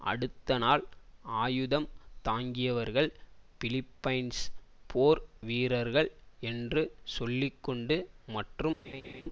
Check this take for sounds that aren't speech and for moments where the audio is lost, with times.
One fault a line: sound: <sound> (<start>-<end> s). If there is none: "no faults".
sound: laugh (8.8-9.2 s)